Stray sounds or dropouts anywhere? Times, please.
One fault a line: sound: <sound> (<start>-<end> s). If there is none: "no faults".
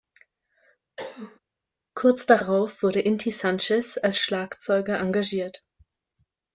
sound: cough (1.0-1.4 s)